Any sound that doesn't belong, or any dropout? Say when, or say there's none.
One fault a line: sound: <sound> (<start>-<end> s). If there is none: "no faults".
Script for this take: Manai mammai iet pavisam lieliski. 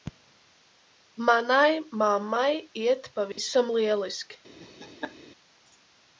sound: dropout (3.3-3.4 s)
sound: laugh (4.6-5.2 s)